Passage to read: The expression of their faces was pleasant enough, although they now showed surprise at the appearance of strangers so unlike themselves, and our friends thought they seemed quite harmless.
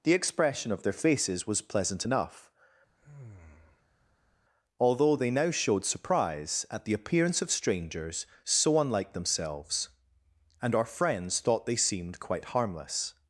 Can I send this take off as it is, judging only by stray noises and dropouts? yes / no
no